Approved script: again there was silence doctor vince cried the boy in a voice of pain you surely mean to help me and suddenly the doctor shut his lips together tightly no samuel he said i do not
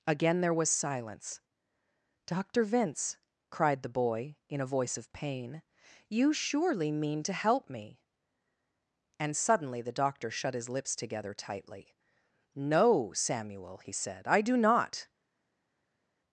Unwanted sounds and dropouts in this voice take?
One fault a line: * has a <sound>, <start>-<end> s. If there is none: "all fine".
all fine